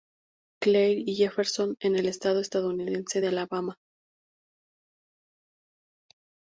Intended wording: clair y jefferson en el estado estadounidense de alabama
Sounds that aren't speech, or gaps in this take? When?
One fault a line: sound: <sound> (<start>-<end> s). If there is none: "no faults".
no faults